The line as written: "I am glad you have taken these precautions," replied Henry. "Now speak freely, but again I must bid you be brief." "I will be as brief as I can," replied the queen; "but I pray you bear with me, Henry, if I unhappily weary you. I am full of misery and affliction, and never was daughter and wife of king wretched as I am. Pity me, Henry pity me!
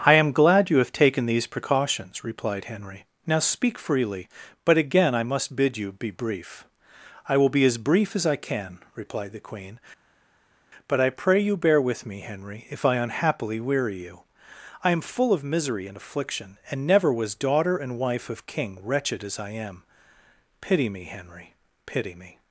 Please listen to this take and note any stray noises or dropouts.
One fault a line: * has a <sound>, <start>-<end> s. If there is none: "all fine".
all fine